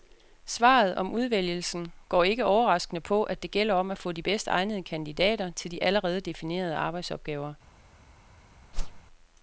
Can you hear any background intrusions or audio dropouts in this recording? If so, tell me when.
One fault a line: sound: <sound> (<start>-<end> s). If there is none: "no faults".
sound: whoosh (8.7-9.0 s)